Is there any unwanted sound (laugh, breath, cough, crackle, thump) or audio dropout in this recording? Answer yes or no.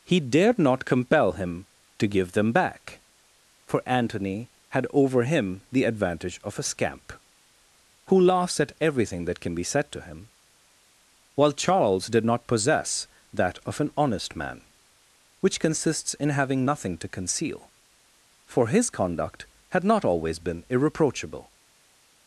no